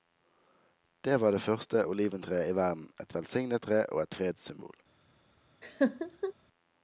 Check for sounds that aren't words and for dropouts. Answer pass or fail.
fail